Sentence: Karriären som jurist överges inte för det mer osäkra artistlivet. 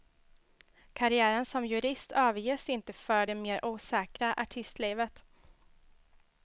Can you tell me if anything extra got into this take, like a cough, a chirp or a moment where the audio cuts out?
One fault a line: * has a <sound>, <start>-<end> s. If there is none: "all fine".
all fine